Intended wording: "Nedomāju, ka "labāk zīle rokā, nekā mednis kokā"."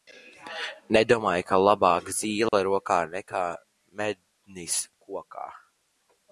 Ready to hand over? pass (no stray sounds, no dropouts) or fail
fail